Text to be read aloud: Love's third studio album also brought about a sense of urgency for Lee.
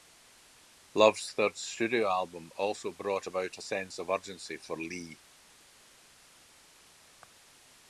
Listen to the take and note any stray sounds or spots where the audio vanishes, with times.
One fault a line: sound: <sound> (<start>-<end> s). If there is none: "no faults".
no faults